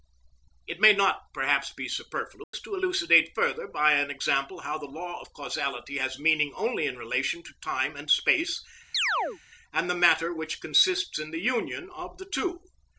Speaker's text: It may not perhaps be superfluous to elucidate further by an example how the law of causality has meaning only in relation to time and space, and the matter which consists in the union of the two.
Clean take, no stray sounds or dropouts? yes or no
no